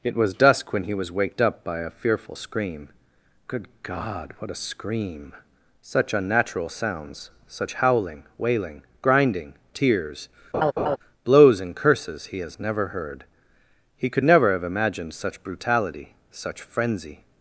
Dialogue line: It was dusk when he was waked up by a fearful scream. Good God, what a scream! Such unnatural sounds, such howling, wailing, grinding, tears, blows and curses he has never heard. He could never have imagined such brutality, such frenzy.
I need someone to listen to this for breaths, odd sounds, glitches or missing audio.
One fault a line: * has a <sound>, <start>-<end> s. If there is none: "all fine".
* has a laugh, 10.5-11.0 s